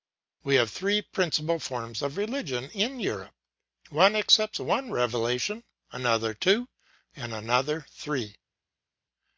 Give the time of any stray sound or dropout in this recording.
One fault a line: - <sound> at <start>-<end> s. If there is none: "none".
none